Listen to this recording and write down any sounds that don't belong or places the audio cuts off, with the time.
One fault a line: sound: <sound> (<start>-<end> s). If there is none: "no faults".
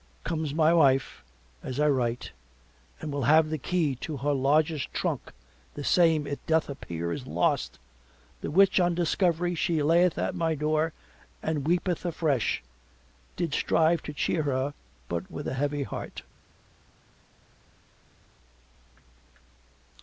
no faults